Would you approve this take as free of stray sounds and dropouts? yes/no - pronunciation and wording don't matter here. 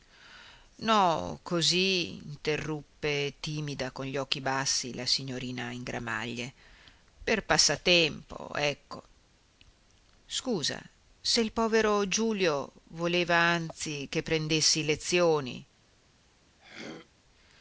no